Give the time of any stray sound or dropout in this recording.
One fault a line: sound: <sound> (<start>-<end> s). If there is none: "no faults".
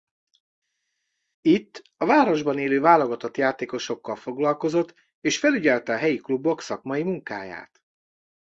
no faults